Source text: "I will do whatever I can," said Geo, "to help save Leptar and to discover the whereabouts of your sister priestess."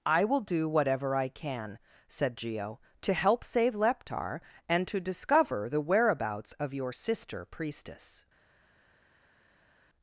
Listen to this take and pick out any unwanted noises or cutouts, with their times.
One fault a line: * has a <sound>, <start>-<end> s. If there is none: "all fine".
all fine